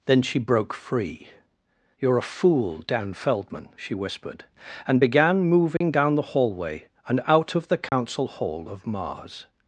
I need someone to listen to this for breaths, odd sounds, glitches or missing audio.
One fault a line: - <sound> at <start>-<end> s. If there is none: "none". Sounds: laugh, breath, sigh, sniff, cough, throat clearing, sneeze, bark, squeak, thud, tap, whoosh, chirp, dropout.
- dropout at 5.8-5.8 s
- dropout at 7.9-7.9 s